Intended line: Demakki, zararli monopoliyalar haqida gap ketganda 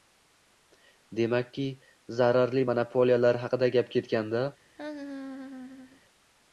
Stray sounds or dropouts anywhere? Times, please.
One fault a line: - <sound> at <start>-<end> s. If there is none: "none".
- laugh at 4.8-6.0 s